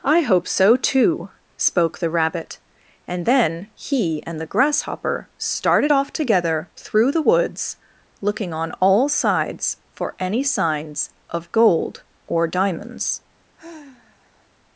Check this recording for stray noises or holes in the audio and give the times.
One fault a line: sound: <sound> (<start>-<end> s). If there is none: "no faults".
sound: sigh (13.6-14.5 s)